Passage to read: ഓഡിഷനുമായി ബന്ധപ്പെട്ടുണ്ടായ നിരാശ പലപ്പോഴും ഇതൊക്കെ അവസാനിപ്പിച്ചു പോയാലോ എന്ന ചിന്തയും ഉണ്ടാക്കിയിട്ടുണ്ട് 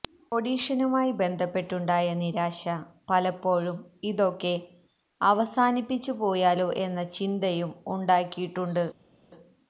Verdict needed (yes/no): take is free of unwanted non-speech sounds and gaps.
yes